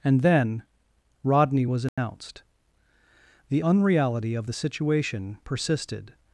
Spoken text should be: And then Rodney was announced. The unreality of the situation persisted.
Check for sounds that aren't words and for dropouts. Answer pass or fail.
fail